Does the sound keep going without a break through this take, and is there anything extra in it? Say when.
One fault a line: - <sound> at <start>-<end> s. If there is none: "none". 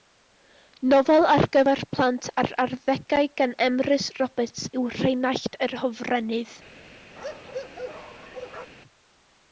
- bark at 7.2-8.7 s